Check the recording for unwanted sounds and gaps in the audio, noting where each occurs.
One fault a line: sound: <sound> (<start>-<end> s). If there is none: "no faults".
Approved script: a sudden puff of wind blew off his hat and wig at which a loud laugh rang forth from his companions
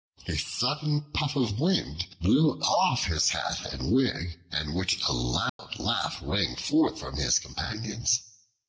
sound: dropout (5.5-5.6 s)